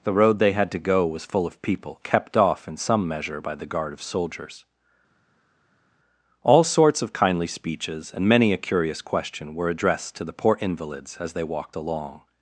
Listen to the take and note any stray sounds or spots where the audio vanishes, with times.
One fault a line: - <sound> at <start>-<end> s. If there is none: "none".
none